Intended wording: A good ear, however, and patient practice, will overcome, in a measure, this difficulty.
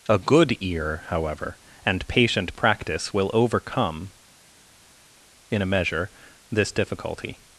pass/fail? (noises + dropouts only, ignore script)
pass